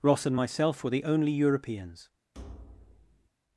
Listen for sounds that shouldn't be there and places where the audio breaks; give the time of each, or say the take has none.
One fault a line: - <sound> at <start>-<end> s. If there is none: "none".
- thud at 2.3-3.3 s